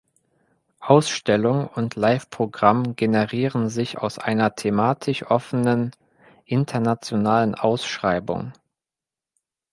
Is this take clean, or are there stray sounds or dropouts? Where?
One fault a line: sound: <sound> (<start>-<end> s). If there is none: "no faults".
no faults